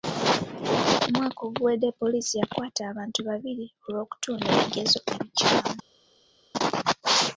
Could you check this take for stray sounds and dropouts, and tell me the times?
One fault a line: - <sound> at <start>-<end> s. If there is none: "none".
none